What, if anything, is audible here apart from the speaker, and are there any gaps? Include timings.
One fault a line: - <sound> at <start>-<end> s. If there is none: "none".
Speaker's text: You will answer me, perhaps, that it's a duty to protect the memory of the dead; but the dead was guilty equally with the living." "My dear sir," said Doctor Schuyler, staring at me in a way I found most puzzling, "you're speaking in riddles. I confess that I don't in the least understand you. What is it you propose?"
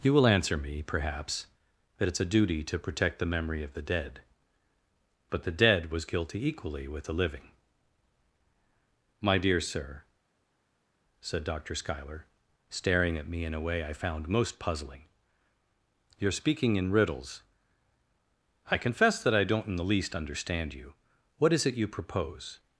none